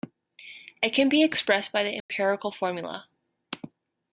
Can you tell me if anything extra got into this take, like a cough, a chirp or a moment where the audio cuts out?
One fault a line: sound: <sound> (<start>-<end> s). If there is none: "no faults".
sound: dropout (2.0-2.1 s)